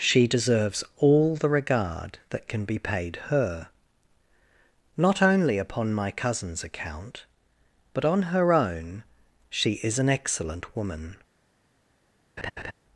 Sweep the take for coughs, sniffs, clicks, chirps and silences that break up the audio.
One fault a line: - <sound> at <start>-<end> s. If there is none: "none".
- laugh at 12.4-12.7 s